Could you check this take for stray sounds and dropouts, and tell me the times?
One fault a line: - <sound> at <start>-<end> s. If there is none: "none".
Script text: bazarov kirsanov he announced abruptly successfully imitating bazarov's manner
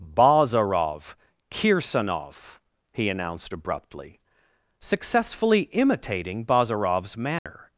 - dropout at 7.4-7.5 s